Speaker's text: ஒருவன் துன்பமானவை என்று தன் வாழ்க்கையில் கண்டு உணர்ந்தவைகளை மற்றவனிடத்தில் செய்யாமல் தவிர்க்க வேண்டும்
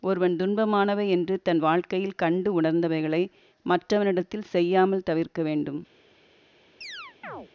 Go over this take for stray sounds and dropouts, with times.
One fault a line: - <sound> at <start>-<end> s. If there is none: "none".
- chirp at 6.8-7.5 s